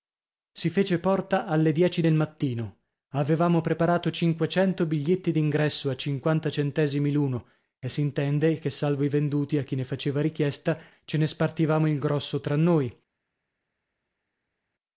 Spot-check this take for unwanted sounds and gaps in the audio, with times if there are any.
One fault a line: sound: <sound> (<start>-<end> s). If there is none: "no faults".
no faults